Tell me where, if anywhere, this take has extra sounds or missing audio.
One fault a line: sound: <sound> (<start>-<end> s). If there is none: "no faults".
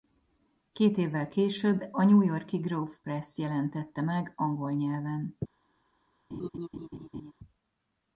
sound: laugh (6.3-7.3 s)